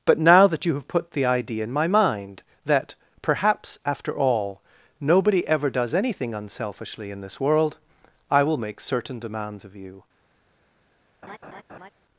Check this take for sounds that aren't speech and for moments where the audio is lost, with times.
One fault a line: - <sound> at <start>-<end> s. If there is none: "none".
- laugh at 11.2-11.9 s